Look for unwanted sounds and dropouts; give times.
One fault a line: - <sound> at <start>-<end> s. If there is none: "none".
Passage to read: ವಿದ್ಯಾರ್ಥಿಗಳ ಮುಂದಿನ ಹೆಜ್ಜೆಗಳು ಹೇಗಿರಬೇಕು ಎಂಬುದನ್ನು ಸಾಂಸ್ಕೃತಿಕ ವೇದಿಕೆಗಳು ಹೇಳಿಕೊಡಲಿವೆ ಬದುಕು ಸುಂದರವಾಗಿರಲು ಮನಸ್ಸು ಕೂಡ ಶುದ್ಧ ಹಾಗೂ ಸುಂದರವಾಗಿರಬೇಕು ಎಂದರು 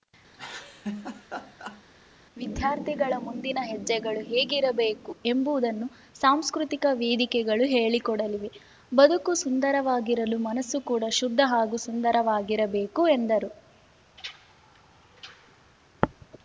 - laugh at 0.3-1.8 s